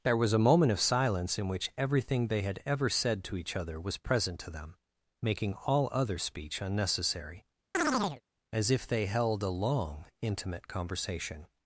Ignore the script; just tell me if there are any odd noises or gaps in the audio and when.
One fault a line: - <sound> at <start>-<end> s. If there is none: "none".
- chirp at 7.7-8.2 s